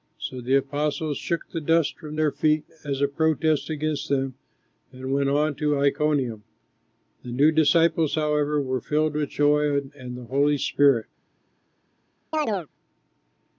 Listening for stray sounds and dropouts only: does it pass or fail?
fail